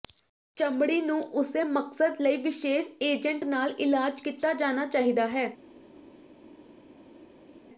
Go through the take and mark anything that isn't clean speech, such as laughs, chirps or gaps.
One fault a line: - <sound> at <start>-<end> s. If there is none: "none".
none